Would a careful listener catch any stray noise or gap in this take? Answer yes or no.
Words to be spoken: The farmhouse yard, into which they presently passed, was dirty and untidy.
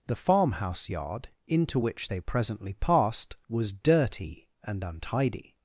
no